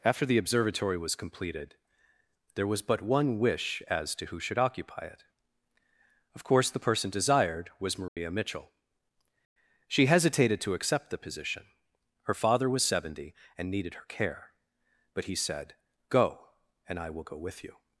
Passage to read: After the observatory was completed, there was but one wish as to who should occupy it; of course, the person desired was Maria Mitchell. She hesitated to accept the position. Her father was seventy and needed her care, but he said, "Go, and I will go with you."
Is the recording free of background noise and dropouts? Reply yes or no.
no